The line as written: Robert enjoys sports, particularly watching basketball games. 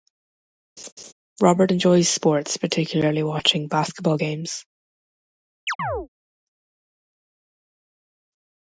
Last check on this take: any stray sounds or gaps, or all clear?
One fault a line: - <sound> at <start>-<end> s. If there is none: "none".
- laugh at 0.8-1.1 s
- chirp at 5.7-6.1 s